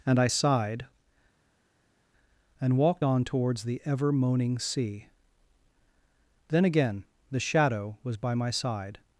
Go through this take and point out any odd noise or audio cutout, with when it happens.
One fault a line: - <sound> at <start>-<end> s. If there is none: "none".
none